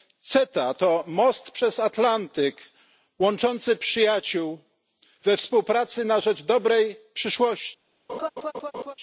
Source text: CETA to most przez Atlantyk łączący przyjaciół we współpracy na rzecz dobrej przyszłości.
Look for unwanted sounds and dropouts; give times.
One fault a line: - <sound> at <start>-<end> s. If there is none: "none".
- laugh at 8.1-8.9 s